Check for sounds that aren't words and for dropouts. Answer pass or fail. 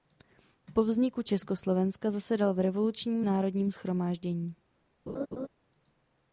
fail